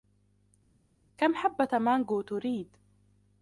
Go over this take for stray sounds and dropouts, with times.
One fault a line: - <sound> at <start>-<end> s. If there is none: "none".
none